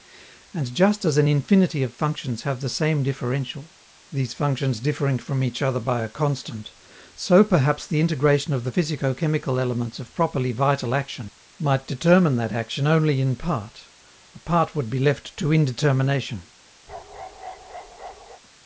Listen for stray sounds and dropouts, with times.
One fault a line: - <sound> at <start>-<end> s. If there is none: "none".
- bark at 16.9-18.4 s